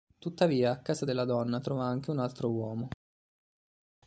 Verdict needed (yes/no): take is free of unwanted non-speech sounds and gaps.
yes